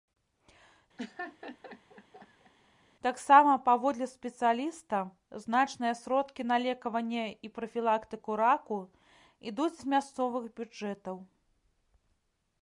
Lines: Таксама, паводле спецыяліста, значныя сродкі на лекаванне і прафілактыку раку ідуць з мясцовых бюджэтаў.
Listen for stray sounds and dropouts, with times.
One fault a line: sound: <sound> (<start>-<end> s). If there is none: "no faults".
sound: laugh (1.0-2.5 s)